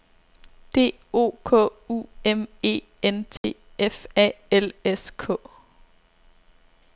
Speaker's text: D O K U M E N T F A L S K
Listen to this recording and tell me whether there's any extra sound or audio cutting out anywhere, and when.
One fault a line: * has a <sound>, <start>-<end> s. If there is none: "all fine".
* has a dropout, 3.4-3.4 s